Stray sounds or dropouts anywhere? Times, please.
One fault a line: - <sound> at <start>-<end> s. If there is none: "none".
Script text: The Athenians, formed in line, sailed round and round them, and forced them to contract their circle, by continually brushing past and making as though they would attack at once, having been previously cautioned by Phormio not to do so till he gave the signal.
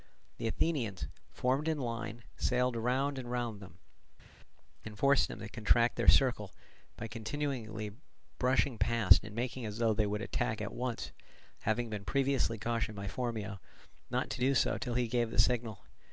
none